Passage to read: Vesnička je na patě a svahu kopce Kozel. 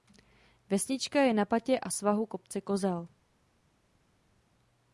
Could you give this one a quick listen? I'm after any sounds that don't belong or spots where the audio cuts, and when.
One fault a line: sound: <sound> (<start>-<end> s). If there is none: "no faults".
no faults